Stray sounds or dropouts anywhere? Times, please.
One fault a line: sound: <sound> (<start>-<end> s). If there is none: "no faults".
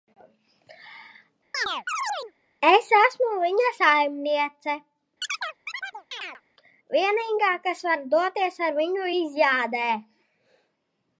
sound: chirp (1.5-2.3 s)
sound: chirp (5.2-6.4 s)